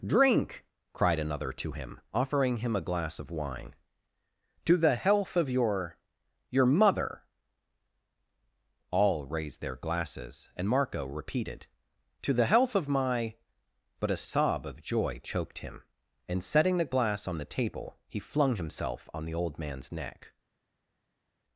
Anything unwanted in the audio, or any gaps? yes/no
no